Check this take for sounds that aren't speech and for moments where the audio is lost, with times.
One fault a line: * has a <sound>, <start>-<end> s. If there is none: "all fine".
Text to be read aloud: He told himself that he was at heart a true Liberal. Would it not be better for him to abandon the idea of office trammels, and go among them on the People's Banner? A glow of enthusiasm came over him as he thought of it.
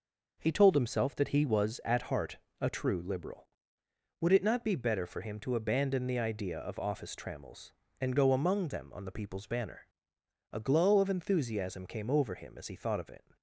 all fine